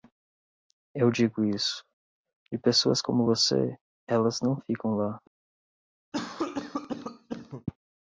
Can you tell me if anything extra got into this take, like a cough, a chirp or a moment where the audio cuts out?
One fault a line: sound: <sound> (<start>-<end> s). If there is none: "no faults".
sound: cough (6.1-7.7 s)